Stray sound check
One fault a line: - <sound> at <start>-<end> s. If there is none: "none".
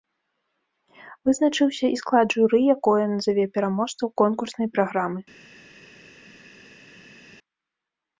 none